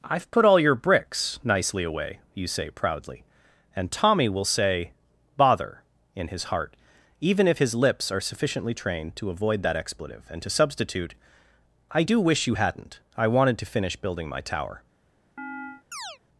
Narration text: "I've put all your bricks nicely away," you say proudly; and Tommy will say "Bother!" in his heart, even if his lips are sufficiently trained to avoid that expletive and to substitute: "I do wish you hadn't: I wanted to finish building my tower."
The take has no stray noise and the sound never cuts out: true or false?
false